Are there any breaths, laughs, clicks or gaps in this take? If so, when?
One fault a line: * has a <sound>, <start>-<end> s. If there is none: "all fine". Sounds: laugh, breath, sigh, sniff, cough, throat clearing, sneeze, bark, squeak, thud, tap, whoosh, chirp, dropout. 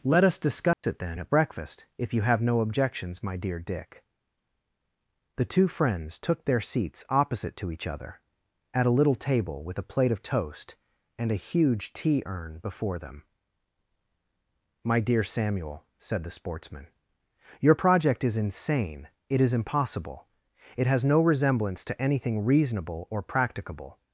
* has a dropout, 0.7-0.8 s